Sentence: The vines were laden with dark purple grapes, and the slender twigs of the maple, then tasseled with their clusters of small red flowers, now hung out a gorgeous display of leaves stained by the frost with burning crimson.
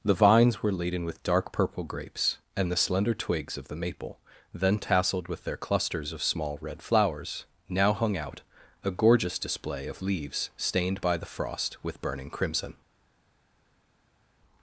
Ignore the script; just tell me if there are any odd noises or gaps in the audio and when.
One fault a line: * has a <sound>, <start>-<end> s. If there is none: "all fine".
all fine